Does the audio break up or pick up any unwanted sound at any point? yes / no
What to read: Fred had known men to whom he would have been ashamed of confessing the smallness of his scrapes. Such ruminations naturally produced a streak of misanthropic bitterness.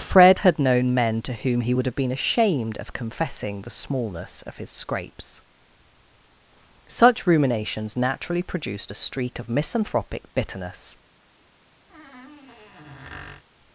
yes